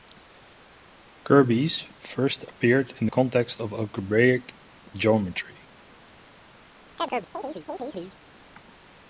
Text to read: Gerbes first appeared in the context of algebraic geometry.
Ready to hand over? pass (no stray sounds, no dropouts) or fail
fail